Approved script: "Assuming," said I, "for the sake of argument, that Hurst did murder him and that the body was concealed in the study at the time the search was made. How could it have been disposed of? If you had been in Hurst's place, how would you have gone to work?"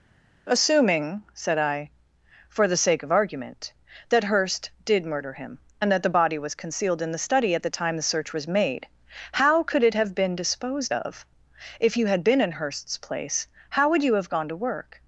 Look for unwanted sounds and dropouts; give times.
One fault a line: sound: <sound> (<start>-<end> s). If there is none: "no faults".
no faults